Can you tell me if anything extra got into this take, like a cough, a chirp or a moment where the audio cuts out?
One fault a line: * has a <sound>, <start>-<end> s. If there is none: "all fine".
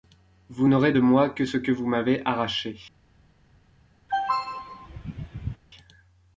* has a throat clearing, 4.1-5.6 s